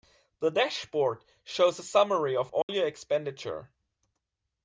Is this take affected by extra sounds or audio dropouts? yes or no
yes